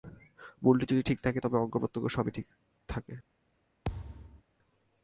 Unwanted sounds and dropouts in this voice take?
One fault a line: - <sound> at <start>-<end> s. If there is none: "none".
- thud at 3.8-4.4 s